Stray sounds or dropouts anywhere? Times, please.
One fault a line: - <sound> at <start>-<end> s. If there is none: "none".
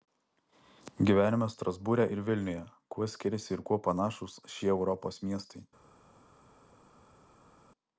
none